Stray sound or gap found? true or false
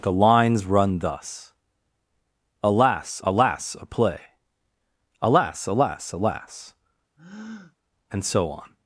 true